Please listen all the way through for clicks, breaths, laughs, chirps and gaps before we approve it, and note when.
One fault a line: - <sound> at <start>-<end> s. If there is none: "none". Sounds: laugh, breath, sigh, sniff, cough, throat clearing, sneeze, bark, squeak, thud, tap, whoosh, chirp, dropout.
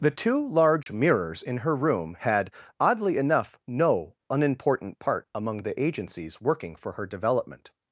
- dropout at 0.8-0.9 s